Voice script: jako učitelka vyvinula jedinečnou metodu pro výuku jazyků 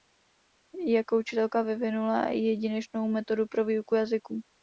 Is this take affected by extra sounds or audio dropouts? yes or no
no